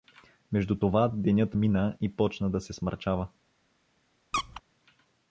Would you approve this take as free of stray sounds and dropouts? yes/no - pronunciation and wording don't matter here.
no